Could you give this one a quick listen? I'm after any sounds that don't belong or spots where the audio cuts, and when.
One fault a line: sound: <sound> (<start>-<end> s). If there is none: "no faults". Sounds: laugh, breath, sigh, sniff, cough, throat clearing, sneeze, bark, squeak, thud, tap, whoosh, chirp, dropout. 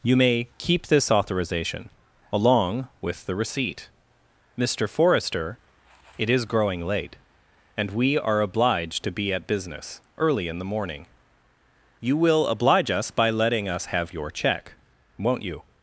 no faults